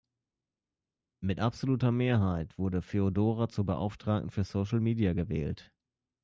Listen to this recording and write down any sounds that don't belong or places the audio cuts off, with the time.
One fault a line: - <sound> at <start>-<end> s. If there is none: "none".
none